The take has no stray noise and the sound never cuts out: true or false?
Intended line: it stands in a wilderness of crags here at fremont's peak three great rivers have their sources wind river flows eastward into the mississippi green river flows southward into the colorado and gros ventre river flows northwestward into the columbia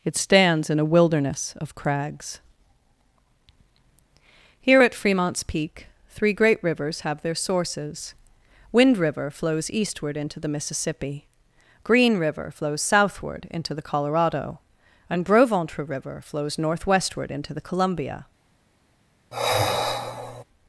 false